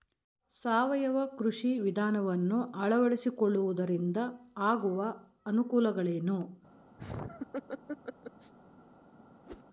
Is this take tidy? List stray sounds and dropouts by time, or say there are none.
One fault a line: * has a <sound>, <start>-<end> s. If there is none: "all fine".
* has a laugh, 7.0-8.5 s
* has a whoosh, 9.4-9.6 s